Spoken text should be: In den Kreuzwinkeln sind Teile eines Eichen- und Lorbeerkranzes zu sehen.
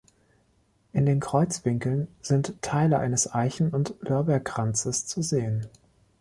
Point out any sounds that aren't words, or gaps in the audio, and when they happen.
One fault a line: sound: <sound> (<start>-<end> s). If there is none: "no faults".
no faults